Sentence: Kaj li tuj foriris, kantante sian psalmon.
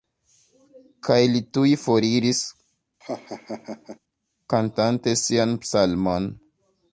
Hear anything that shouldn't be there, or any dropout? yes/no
yes